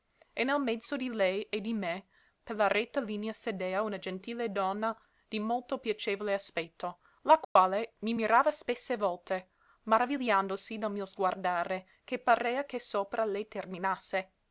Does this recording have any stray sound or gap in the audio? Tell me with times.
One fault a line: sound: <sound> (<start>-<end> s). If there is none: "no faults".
sound: dropout (7.4-7.6 s)